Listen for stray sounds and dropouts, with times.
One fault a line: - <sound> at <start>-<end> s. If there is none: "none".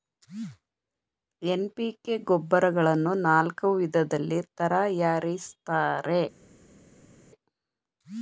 none